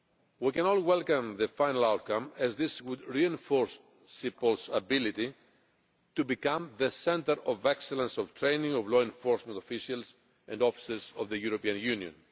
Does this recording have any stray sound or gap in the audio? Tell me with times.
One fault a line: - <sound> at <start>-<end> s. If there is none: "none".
none